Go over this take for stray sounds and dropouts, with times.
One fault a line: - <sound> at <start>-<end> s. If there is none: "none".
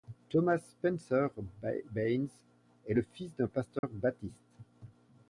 - dropout at 3.8-3.8 s